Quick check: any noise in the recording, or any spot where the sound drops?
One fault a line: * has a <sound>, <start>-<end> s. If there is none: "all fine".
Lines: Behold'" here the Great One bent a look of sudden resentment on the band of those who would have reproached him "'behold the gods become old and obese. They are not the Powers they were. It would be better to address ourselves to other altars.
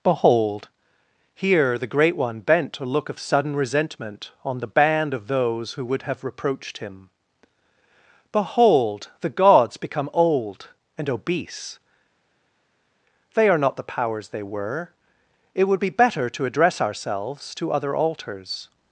all fine